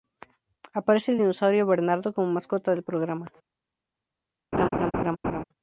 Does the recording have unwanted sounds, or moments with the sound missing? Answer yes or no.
yes